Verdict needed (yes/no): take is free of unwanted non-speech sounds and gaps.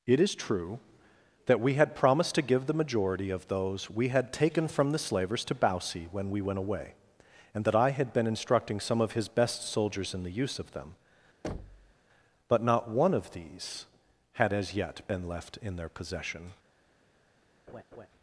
no